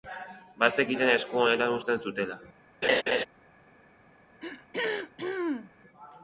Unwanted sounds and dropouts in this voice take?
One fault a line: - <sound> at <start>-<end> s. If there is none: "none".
- laugh at 2.8-3.3 s
- throat clearing at 4.4-5.7 s